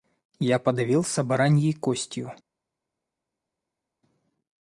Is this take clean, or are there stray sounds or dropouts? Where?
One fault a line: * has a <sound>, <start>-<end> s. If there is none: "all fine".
all fine